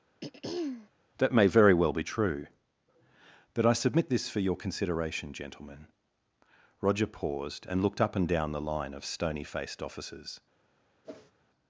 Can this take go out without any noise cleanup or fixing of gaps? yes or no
no